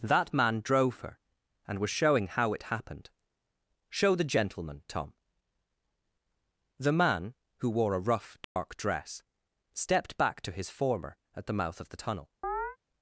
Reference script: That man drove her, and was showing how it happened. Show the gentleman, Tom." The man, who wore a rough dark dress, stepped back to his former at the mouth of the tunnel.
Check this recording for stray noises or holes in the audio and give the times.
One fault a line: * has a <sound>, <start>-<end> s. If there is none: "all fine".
* has a dropout, 8.4-8.6 s
* has a chirp, 12.4-12.8 s